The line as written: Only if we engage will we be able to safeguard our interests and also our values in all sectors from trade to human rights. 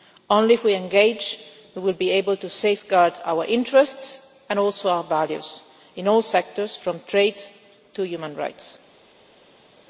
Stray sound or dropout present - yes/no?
no